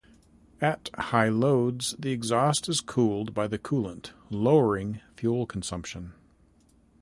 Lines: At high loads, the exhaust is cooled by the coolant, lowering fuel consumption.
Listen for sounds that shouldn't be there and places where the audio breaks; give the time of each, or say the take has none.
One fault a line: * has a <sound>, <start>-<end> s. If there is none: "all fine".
all fine